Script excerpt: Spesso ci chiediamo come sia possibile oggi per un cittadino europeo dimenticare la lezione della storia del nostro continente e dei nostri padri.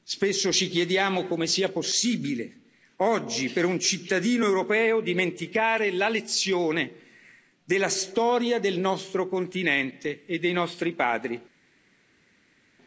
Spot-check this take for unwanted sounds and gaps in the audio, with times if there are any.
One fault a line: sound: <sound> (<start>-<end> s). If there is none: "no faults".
no faults